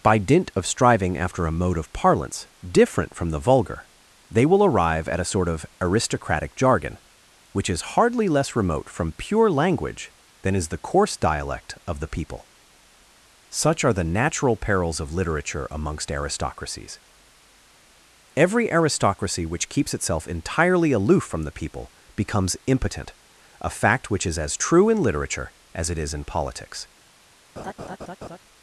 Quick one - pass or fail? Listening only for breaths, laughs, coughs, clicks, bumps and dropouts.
fail